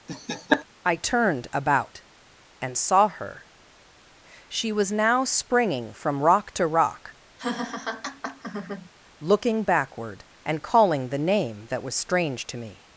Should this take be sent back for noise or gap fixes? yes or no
yes